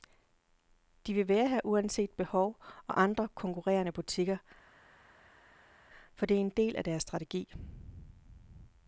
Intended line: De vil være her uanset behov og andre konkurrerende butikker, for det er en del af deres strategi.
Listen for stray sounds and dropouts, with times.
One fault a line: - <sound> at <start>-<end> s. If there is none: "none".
none